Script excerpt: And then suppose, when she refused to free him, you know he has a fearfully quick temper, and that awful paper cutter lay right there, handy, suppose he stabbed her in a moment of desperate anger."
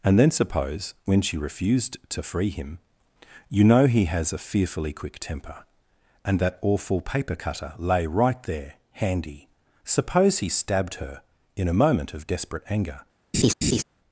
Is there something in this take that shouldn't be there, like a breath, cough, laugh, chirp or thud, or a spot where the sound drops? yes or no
yes